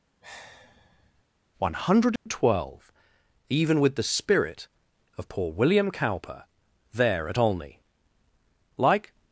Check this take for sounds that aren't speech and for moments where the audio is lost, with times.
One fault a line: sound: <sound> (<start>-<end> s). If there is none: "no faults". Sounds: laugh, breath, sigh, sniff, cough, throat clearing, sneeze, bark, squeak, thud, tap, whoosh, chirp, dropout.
sound: sigh (0.2-1.2 s)
sound: dropout (2.2-2.3 s)